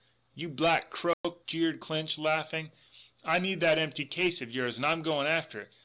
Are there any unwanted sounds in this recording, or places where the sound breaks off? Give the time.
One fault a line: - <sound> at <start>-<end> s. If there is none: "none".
- dropout at 1.1-1.2 s